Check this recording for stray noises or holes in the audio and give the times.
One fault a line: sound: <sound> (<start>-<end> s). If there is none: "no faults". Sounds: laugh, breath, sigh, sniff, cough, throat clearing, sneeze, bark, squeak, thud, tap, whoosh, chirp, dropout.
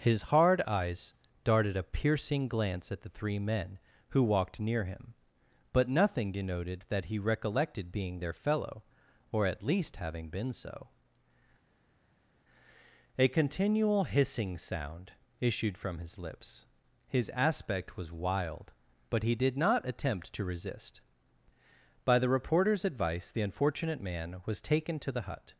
no faults